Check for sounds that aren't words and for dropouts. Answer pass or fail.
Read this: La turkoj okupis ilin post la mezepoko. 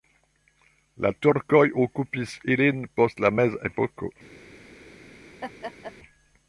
fail